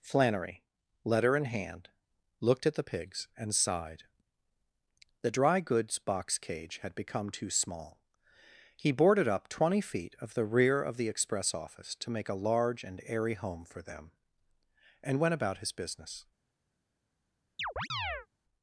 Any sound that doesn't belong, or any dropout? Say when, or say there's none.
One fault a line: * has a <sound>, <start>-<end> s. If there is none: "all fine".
* has a chirp, 17.6-18.3 s